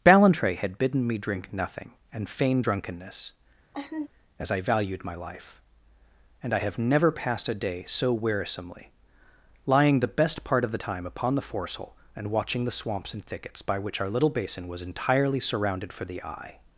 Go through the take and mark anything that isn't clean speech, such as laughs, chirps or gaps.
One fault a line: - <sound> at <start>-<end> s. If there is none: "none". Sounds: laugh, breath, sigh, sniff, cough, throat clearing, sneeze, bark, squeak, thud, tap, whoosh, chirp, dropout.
- laugh at 3.7-4.1 s